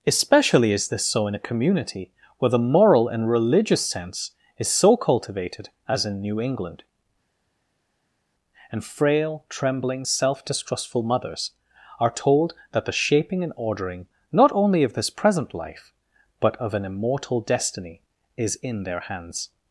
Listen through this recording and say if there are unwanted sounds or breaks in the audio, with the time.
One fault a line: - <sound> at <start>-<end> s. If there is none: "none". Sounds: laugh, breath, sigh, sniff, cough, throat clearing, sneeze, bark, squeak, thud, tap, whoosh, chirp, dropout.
none